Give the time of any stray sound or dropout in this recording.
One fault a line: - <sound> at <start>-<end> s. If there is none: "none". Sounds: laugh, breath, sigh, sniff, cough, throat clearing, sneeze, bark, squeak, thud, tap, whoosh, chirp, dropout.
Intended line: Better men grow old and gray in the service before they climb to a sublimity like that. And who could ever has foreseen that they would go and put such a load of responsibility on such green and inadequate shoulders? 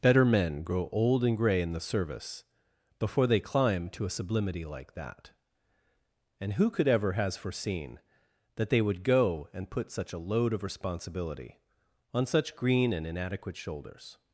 none